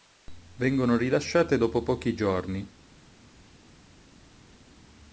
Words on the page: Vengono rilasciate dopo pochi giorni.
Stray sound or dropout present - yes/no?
no